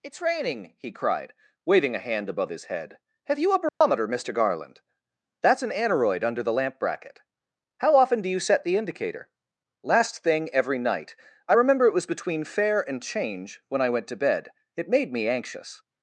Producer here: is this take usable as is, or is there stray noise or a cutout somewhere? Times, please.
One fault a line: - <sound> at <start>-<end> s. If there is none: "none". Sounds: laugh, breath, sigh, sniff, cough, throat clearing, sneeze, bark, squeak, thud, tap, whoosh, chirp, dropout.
- dropout at 3.7-3.8 s